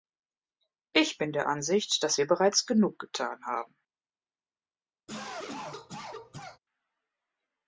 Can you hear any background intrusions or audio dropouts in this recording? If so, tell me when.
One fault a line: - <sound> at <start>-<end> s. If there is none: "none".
- cough at 5.1-6.6 s